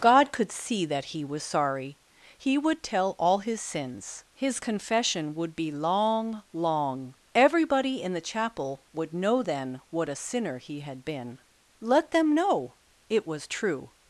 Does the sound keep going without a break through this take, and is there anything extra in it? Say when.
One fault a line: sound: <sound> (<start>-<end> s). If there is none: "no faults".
no faults